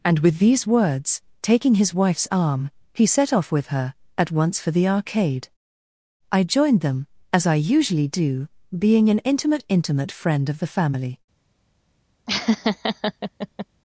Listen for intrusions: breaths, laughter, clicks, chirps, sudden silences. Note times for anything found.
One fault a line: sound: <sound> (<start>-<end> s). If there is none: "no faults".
sound: laugh (12.3-13.7 s)